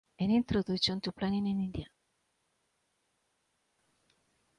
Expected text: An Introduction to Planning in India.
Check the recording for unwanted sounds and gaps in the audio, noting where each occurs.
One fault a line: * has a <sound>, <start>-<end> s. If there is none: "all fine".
all fine